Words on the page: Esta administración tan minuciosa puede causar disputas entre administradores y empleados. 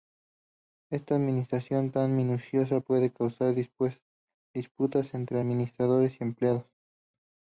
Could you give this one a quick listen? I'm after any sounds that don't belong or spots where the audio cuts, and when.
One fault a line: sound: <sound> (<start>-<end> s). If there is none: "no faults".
no faults